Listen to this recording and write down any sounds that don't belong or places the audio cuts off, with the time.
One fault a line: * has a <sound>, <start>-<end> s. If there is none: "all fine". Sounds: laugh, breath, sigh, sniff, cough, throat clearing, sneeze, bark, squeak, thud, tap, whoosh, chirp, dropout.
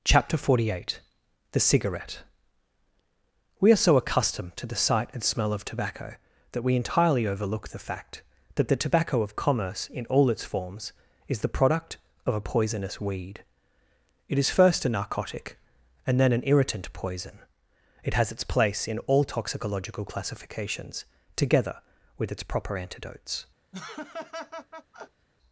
* has a laugh, 23.7-25.3 s